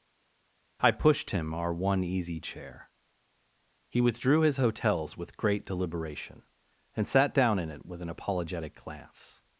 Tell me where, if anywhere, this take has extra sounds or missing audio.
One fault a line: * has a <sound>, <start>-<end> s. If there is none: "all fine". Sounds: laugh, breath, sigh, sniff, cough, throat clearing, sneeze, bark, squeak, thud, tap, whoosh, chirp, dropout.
all fine